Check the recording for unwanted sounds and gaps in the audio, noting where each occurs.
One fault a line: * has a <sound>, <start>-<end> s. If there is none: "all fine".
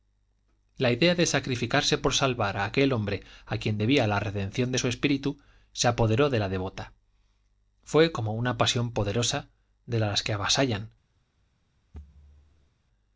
* has a thud, 11.9-12.7 s